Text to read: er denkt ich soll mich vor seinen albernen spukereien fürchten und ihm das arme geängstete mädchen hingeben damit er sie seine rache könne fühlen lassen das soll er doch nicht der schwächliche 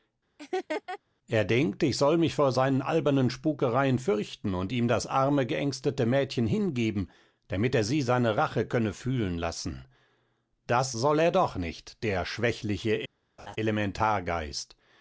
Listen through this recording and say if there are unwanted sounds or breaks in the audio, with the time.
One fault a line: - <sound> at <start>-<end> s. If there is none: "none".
- laugh at 0.4-1.0 s
- laugh at 13.4-13.6 s